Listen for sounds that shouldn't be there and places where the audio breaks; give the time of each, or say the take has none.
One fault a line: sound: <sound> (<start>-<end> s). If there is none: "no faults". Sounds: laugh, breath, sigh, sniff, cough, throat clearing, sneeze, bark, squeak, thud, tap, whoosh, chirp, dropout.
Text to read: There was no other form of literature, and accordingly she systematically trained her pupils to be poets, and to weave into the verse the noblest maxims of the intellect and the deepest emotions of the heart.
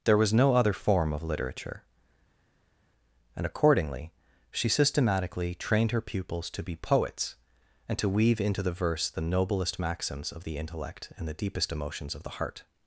no faults